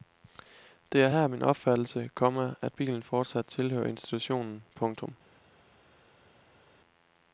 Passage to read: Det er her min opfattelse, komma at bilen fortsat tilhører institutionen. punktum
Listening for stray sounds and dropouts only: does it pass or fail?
pass